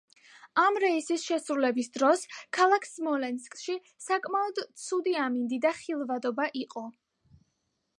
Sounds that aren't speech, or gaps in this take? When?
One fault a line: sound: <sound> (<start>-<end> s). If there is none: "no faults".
no faults